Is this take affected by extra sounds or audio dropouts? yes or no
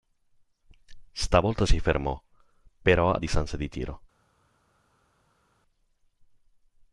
no